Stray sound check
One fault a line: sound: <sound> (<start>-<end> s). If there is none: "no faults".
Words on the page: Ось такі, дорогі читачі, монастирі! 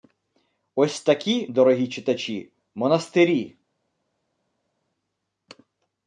no faults